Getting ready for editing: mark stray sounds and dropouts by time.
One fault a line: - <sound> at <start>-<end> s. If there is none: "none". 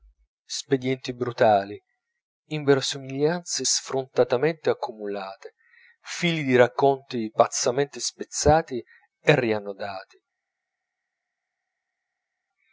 none